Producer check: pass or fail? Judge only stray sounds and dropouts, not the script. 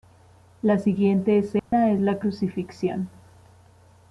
fail